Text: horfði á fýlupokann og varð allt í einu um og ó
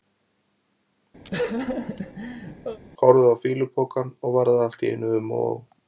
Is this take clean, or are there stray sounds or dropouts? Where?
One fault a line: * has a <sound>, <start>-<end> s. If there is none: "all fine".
* has a laugh, 1.2-2.8 s